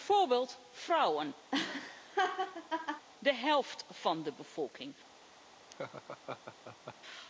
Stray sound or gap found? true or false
true